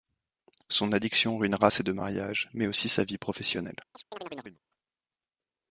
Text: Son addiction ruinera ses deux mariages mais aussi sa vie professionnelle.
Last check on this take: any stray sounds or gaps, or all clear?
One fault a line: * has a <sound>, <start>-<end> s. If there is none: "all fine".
* has a chirp, 3.9-4.6 s